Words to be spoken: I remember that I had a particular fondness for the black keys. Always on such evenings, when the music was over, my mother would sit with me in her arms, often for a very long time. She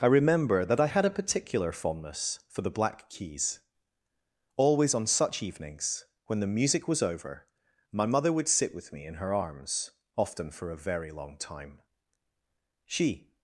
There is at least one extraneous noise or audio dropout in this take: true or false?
false